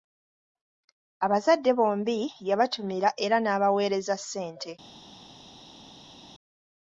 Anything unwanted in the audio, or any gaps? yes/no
no